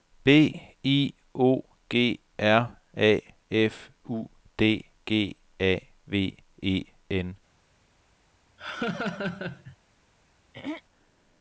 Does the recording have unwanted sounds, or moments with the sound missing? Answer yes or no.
yes